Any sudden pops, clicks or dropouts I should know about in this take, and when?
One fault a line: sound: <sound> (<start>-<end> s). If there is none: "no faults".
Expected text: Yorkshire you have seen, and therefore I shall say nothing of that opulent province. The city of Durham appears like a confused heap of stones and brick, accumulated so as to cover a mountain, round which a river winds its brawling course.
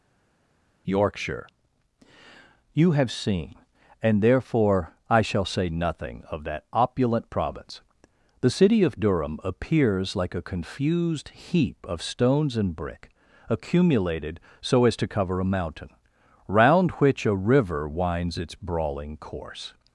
no faults